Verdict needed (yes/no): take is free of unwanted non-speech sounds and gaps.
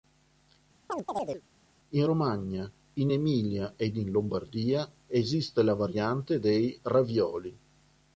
no